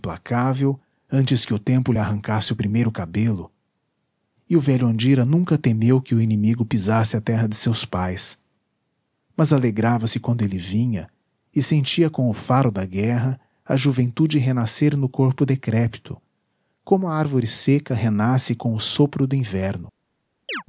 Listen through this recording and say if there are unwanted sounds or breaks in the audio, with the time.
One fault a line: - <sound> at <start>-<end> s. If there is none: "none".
- chirp at 20.5-20.6 s